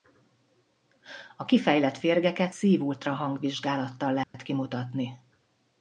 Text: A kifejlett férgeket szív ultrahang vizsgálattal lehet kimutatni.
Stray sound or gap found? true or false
true